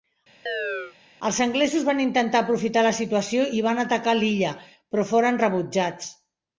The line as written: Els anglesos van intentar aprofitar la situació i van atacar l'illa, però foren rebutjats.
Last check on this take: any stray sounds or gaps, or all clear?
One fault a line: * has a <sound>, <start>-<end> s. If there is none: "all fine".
* has a chirp, 0.5-1.0 s